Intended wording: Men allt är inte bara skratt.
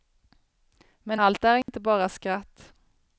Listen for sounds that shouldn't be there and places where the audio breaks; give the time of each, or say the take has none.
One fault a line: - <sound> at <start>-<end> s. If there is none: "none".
- dropout at 1.6-1.7 s